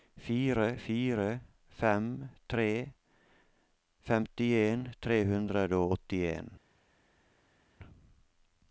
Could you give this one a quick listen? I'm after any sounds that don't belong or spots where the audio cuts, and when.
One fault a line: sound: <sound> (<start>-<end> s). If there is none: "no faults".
no faults